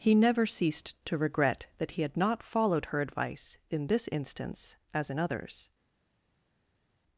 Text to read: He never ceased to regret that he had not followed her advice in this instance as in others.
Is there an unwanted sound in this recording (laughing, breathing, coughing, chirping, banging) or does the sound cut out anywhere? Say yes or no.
no